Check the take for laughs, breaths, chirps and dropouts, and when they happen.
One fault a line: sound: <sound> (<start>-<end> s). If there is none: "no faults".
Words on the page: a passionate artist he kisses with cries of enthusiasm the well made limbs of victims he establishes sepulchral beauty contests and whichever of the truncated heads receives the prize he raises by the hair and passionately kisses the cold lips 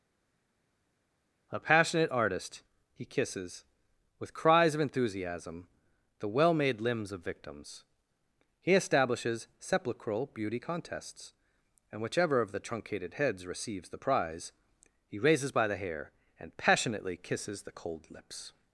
no faults